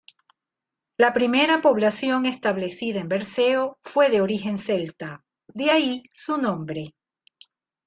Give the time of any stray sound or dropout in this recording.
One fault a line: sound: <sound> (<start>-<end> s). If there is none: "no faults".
no faults